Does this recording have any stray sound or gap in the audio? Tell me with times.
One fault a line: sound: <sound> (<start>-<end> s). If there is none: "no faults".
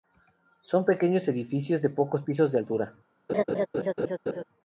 sound: laugh (3.3-4.4 s)